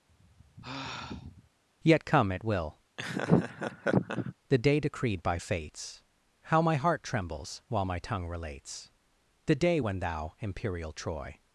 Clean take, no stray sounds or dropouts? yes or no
no